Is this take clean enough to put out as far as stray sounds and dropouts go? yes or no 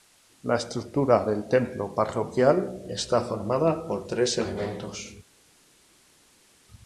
yes